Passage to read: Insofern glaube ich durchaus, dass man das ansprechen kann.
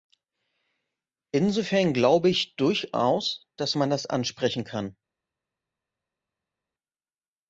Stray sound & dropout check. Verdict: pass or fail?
pass